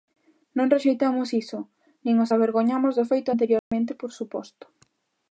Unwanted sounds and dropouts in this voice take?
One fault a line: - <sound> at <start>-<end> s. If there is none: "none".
- dropout at 3.6-3.7 s